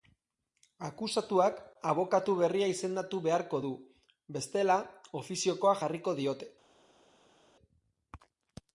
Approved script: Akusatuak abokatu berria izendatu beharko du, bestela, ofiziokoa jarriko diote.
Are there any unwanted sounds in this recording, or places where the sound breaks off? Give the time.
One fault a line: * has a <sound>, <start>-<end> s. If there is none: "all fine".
all fine